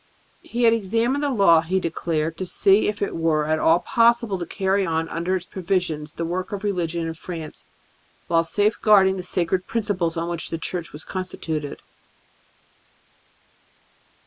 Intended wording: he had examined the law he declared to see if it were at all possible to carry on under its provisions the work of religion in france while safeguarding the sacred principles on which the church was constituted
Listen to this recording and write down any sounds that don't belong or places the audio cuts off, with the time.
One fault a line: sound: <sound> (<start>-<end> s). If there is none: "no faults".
no faults